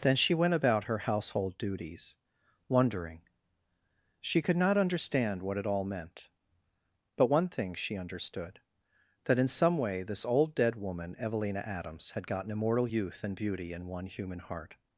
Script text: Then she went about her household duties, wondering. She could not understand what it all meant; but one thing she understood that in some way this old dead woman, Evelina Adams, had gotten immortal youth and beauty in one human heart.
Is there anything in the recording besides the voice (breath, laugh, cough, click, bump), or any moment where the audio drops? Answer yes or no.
no